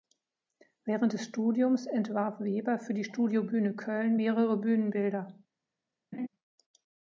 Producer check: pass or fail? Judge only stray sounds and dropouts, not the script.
fail